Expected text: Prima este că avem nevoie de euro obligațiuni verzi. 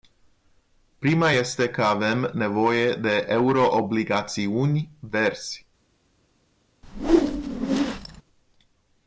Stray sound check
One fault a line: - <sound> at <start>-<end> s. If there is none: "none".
- whoosh at 6.8-8.2 s